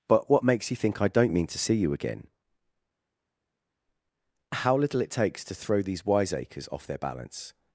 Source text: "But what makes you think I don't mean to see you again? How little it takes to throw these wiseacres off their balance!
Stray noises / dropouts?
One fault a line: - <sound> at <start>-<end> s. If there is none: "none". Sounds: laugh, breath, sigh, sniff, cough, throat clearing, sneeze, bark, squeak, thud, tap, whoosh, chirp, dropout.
none